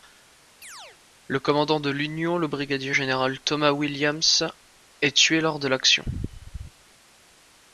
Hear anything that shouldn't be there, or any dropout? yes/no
yes